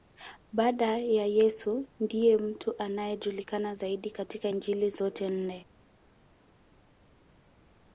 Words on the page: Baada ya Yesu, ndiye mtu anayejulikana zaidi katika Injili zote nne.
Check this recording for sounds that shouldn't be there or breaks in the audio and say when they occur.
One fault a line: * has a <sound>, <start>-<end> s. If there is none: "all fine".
all fine